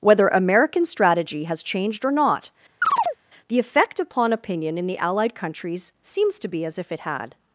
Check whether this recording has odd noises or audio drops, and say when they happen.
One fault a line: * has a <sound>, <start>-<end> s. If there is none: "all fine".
* has a chirp, 2.8-3.2 s